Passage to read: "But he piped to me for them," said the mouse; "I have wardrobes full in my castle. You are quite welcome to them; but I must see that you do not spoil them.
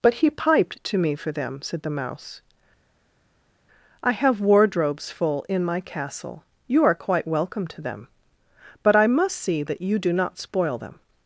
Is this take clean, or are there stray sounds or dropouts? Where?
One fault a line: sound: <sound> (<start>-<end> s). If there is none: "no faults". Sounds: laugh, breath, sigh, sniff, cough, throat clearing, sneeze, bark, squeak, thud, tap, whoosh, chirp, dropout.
no faults